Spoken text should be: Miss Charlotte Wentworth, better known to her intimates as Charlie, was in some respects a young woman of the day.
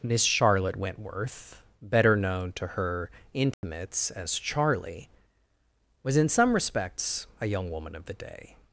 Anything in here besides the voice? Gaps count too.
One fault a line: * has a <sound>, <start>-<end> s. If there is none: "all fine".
* has a dropout, 3.5-3.6 s